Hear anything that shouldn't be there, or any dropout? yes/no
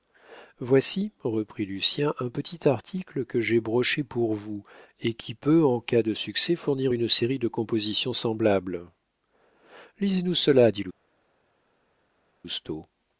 no